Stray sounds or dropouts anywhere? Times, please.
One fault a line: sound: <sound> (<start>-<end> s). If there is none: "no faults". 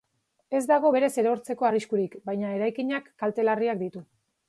no faults